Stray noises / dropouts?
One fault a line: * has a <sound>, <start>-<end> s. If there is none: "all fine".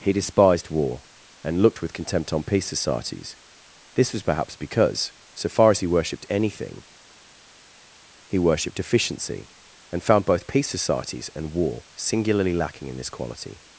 all fine